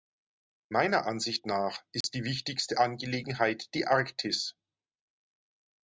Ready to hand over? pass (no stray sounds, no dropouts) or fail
fail